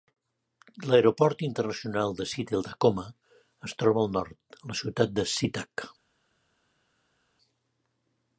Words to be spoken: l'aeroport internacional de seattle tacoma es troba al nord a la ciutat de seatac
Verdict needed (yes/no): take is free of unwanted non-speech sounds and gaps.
yes